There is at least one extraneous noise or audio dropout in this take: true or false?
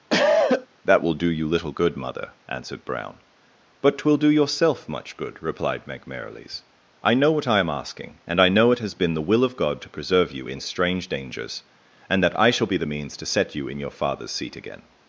true